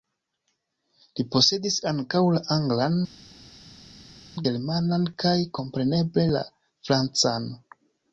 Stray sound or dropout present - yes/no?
no